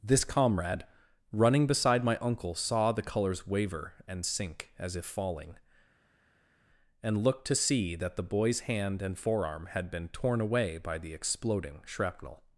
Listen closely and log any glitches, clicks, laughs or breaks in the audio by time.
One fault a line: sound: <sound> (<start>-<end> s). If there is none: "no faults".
no faults